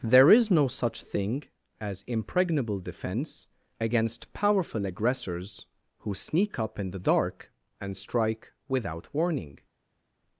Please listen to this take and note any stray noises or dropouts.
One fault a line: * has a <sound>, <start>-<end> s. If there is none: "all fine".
all fine